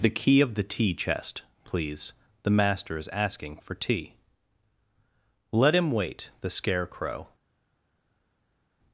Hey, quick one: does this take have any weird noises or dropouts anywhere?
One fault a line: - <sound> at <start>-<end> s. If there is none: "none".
none